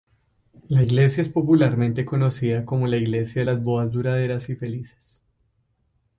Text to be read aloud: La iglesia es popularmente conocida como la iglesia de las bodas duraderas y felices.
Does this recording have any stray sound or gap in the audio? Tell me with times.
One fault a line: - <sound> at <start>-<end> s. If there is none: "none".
none